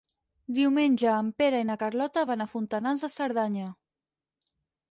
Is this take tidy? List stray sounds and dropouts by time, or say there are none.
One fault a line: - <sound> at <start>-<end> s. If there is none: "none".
none